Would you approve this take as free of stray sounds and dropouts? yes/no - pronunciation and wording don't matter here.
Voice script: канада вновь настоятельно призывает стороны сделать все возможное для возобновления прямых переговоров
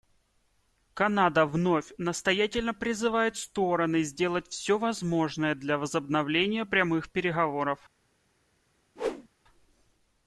no